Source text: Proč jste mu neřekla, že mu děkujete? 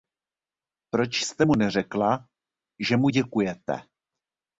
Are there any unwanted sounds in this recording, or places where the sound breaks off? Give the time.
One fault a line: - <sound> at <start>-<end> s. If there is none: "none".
none